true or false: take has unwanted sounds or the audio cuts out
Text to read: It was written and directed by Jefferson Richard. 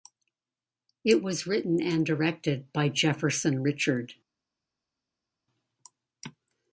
false